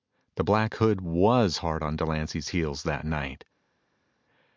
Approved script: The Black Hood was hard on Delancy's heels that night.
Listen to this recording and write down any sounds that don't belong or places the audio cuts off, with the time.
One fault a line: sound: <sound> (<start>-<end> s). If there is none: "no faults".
no faults